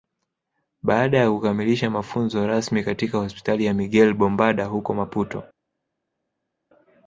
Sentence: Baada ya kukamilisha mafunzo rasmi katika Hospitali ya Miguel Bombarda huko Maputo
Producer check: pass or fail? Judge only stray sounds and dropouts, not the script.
pass